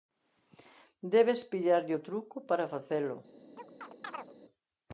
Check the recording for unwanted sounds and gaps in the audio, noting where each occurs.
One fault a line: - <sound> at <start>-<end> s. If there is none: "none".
- chirp at 3.6-4.3 s